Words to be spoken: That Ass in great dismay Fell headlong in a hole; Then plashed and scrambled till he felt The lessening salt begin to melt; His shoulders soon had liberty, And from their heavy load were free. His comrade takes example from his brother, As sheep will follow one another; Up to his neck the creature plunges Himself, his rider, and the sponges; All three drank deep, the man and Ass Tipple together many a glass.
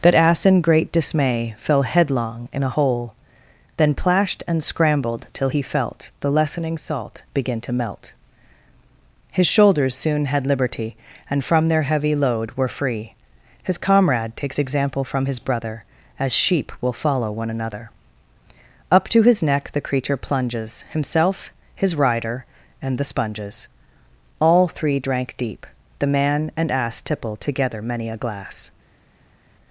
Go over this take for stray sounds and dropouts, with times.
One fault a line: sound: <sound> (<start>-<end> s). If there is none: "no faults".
no faults